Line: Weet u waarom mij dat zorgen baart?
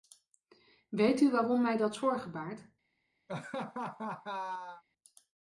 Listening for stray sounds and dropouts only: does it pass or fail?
fail